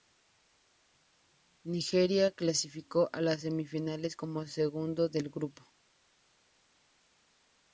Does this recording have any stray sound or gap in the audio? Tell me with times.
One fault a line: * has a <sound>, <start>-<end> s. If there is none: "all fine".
all fine